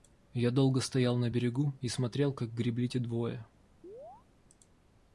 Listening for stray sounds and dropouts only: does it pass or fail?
fail